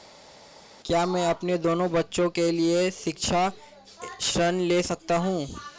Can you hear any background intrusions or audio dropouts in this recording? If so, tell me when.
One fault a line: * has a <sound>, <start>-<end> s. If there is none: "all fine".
all fine